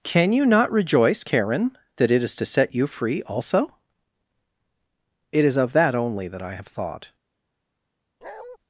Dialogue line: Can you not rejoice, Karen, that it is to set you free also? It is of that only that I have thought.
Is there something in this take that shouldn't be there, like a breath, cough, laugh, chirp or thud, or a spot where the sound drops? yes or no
yes